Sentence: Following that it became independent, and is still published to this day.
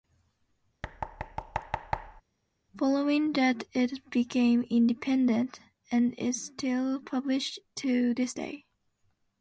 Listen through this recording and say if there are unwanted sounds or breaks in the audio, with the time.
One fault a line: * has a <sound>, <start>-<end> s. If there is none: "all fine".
* has a thud, 0.8-2.2 s